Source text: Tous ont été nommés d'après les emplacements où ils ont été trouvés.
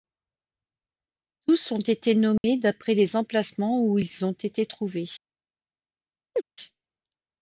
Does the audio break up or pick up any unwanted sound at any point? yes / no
yes